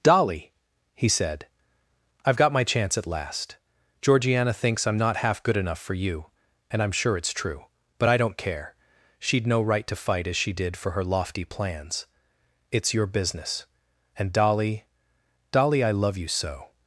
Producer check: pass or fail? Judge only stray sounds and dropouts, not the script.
pass